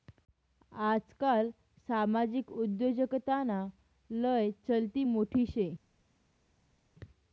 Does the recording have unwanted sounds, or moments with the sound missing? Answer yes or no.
no